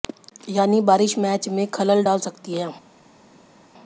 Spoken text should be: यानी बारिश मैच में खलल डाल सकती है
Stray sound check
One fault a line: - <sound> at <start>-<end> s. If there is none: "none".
none